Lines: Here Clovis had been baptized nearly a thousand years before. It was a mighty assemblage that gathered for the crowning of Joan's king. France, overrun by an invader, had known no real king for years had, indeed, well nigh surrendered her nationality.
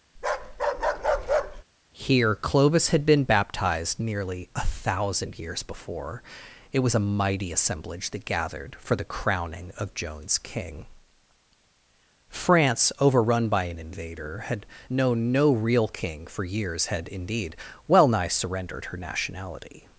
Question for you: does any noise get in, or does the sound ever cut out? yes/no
yes